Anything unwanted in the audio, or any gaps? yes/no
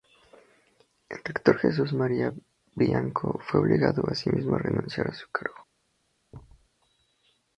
yes